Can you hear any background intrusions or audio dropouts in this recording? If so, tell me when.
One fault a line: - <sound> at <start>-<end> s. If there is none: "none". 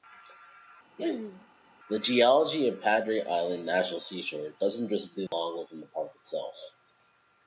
- throat clearing at 1.0-1.5 s
- dropout at 5.3-5.3 s